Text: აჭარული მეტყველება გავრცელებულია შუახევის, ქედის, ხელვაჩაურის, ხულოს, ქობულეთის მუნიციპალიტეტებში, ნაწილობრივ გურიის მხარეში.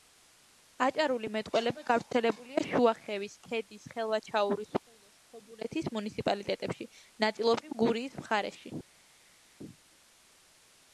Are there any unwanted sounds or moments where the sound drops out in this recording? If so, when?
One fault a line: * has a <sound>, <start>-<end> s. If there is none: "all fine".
all fine